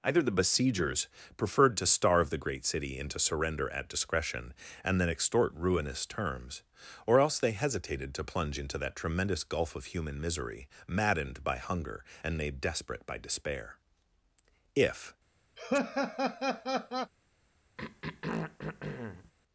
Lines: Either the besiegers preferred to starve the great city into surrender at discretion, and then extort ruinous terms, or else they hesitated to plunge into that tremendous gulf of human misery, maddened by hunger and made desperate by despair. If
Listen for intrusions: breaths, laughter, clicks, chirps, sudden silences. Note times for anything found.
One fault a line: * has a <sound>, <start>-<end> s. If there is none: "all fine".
* has a laugh, 15.6-17.1 s
* has a throat clearing, 17.8-19.3 s